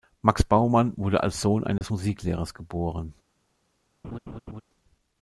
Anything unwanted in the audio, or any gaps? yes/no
yes